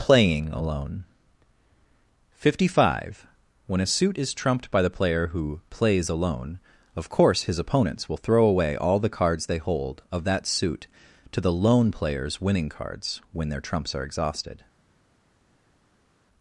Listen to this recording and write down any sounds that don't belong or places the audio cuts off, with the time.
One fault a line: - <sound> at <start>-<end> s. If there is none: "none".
none